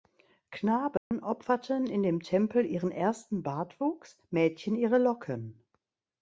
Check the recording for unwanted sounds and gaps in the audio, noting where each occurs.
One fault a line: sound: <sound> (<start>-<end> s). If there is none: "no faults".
sound: dropout (1.0-1.1 s)